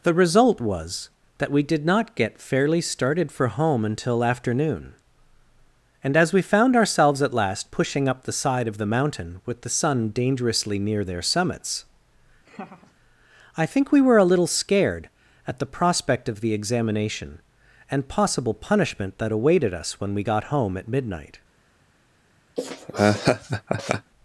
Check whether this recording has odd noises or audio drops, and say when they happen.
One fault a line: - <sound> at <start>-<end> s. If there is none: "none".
- laugh at 12.5-12.9 s
- laugh at 22.6-24.1 s